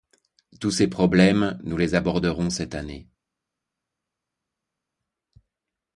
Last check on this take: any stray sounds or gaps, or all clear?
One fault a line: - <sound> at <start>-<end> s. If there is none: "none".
none